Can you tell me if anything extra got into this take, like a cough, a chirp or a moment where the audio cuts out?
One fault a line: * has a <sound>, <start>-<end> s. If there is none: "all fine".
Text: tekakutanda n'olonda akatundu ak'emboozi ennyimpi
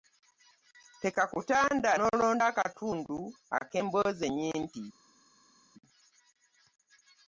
all fine